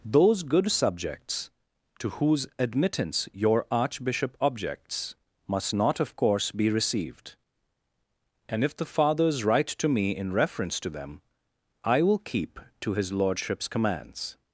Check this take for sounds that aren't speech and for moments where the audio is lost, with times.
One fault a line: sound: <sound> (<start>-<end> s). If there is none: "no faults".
no faults